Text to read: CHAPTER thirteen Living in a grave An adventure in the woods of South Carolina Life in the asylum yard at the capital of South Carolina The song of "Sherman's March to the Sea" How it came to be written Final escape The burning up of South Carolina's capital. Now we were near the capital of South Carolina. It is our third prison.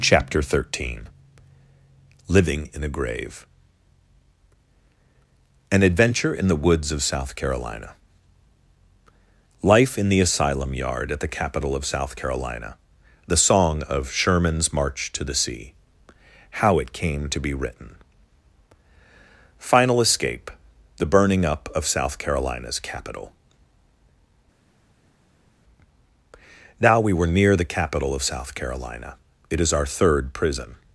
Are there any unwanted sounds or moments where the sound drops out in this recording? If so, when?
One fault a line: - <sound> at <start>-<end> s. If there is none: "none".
none